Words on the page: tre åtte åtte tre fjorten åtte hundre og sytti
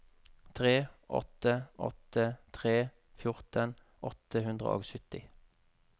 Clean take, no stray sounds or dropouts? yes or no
yes